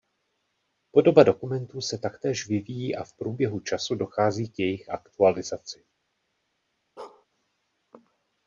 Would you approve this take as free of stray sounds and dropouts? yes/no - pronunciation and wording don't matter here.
no